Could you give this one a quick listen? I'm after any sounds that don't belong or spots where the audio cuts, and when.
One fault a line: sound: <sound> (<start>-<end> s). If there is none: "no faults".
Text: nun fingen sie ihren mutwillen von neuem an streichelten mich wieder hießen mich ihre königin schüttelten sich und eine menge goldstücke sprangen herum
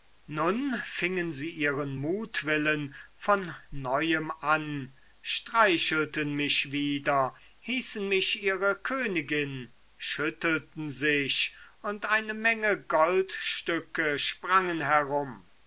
no faults